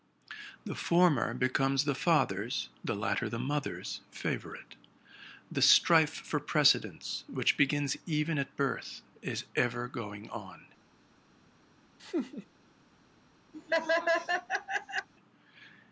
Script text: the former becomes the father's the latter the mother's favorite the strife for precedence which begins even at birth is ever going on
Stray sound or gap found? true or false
true